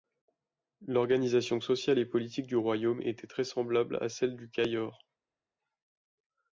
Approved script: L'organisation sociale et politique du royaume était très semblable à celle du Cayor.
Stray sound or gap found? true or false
false